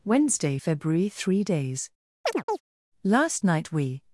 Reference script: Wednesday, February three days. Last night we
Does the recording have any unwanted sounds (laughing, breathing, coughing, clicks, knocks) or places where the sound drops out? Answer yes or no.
yes